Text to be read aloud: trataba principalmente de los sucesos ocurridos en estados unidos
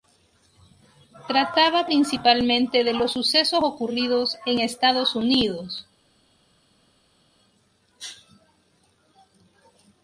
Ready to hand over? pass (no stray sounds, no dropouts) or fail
pass